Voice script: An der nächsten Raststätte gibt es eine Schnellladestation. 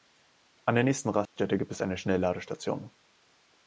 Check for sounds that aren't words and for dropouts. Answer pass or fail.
fail